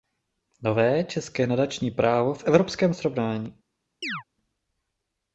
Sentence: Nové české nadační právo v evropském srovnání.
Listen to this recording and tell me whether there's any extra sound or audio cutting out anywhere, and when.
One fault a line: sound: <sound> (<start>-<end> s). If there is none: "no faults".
sound: chirp (4.0-4.2 s)